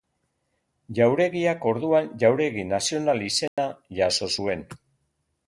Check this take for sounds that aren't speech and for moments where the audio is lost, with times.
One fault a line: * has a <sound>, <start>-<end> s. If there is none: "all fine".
* has a dropout, 3.5-3.6 s